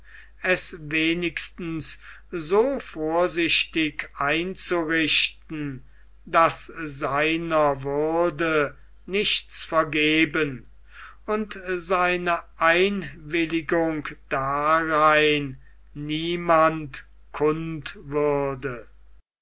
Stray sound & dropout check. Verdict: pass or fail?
pass